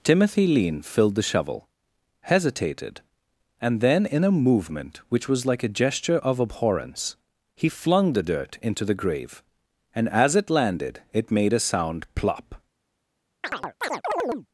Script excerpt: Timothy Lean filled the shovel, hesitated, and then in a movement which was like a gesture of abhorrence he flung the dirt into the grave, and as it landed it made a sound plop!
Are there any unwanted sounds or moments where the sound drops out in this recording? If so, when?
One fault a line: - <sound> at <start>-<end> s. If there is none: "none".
- chirp at 13.4-14.5 s